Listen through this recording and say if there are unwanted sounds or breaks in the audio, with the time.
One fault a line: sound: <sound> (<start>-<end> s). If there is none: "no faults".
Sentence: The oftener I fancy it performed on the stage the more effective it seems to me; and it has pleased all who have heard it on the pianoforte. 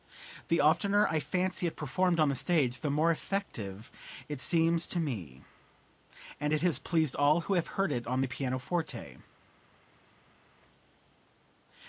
no faults